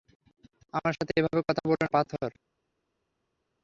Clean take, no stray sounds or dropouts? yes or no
yes